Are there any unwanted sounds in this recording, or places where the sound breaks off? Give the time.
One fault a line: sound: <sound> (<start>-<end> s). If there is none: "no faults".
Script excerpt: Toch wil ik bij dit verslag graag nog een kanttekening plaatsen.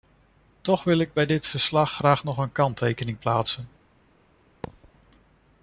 sound: thud (4.6-4.9 s)